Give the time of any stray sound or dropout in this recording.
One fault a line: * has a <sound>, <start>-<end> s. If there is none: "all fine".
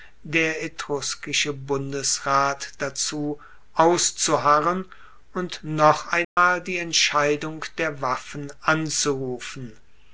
* has a dropout, 6.2-6.4 s